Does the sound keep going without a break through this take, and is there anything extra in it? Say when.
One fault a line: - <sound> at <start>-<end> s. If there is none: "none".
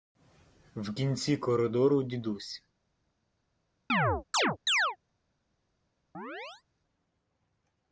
- chirp at 3.9-5.0 s
- chirp at 6.1-6.6 s